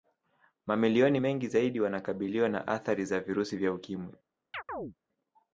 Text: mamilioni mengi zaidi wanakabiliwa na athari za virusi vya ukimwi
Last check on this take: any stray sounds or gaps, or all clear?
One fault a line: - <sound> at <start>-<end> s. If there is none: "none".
- chirp at 4.5-4.9 s